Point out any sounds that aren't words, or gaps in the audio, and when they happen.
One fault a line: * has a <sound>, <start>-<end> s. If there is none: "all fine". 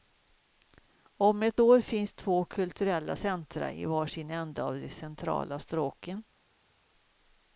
all fine